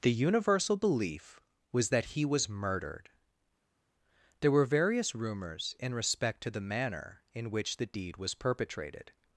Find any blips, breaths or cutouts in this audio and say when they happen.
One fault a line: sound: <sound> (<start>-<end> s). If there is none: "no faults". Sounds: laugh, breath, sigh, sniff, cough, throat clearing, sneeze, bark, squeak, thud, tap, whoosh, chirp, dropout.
no faults